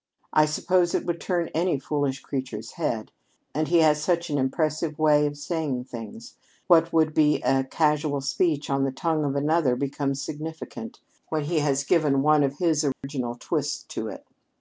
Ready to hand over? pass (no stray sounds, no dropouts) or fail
fail